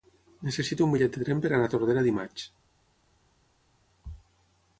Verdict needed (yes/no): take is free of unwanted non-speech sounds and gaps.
yes